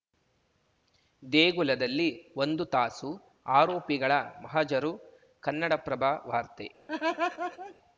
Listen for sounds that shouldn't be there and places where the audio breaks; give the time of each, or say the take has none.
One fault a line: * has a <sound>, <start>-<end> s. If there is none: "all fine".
* has a laugh, 6.9-7.7 s